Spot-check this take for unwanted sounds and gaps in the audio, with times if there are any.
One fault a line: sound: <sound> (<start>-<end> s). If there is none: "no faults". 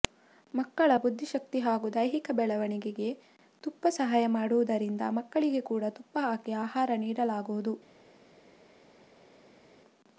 no faults